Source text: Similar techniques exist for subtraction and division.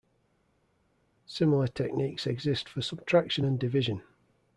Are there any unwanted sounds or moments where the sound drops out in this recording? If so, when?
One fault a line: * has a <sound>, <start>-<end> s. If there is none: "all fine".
all fine